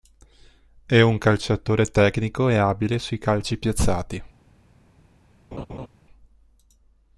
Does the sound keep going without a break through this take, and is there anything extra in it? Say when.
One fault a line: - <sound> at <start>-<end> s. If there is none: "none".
- laugh at 5.5-5.9 s